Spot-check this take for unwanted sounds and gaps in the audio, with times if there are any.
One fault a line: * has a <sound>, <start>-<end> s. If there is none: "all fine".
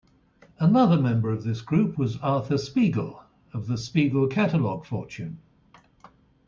all fine